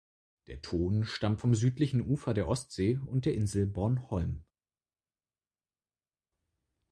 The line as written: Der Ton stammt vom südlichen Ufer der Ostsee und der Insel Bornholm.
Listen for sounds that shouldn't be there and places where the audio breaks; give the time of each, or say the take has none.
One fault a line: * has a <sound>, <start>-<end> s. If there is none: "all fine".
all fine